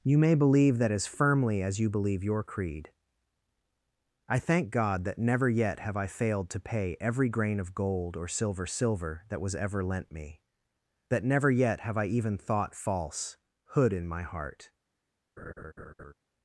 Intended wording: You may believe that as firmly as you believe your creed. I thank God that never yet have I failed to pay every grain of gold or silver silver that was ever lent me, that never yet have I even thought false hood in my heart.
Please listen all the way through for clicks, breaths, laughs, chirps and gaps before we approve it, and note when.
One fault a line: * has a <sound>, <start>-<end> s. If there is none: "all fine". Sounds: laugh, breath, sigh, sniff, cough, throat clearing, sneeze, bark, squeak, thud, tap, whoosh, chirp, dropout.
* has a laugh, 15.4-16.1 s